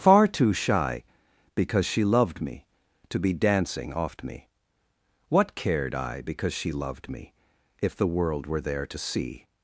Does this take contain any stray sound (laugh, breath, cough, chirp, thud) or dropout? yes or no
no